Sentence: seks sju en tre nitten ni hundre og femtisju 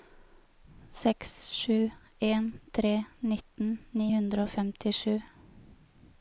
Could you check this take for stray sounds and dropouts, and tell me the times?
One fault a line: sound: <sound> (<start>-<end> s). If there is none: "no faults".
no faults